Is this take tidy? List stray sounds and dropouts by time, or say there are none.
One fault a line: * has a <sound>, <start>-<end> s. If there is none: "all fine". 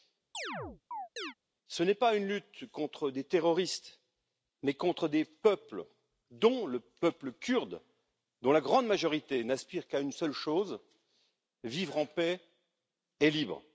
* has a chirp, 0.3-1.3 s